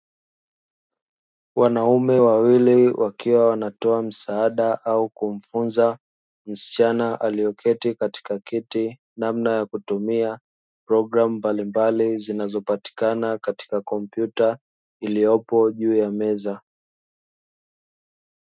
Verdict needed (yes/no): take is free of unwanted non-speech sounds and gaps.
yes